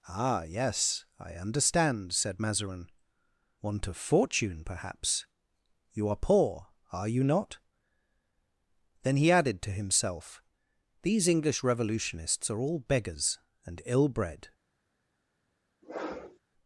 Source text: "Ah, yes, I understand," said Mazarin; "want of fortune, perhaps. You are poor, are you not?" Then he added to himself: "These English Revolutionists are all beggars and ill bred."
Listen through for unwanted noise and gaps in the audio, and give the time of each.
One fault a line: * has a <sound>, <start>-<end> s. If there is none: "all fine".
* has a sniff, 15.8-16.4 s